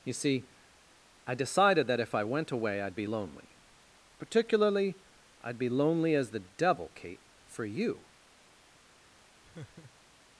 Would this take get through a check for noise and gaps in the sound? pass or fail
fail